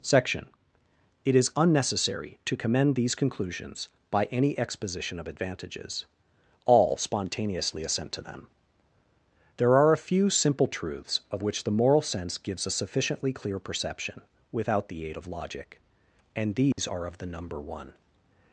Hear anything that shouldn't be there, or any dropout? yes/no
yes